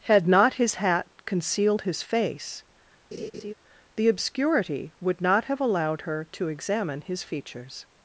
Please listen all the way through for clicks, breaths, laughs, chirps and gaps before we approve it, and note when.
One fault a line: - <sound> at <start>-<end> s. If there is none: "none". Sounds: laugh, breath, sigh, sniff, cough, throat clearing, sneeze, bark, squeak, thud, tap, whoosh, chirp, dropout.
- laugh at 3.1-3.5 s